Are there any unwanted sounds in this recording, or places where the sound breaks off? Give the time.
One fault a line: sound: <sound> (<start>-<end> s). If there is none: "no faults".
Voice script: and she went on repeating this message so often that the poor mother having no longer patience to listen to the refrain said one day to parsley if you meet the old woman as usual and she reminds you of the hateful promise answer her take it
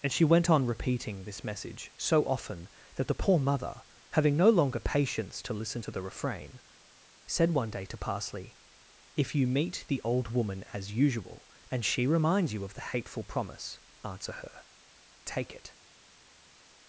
no faults